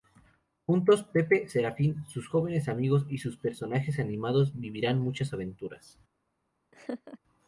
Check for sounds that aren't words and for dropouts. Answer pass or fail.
fail